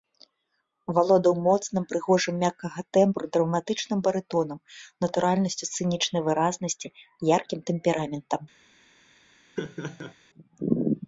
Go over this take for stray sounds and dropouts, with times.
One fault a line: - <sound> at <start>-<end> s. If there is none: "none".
- laugh at 9.6-10.1 s